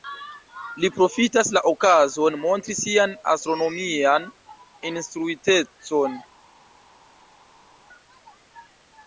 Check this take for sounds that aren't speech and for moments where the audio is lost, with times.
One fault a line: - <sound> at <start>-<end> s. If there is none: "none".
none